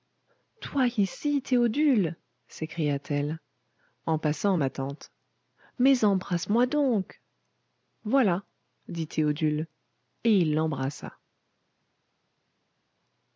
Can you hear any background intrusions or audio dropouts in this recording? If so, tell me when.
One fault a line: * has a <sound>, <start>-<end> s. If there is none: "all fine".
all fine